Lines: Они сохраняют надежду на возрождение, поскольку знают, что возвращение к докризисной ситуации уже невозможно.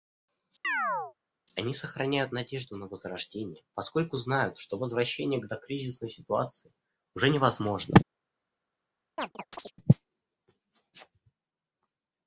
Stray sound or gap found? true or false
true